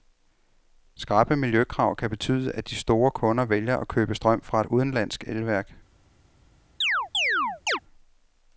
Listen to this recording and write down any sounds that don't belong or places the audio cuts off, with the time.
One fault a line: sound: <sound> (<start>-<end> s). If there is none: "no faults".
sound: chirp (6.8-7.8 s)